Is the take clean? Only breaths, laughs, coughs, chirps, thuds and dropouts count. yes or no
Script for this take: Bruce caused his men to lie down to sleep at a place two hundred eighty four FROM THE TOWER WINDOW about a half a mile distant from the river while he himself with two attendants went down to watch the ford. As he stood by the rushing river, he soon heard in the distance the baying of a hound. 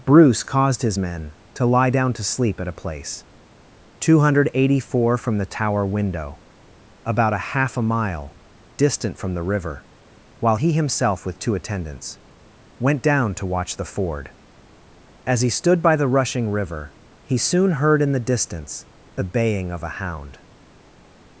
yes